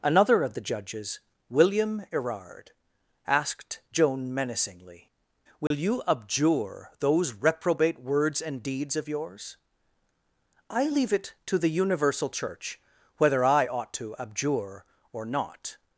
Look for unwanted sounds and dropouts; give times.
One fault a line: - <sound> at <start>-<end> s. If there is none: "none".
- dropout at 5.7-5.7 s